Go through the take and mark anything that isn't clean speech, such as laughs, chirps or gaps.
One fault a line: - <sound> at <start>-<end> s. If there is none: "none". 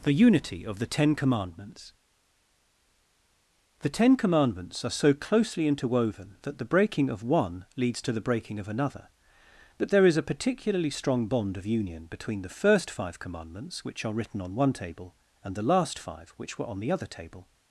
none